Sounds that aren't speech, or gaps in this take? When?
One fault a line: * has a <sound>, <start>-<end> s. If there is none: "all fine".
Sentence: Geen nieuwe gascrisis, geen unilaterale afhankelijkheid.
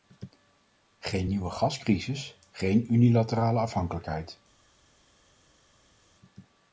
all fine